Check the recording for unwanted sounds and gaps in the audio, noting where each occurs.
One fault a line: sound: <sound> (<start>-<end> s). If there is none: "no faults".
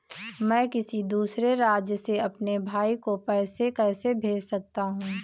no faults